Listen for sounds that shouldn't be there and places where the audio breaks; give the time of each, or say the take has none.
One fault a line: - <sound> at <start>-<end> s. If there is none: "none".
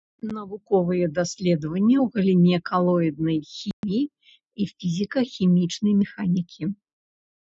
- dropout at 3.7-3.8 s